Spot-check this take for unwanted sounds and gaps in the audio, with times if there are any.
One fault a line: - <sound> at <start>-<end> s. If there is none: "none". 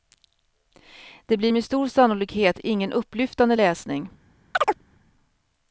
- chirp at 4.5-4.8 s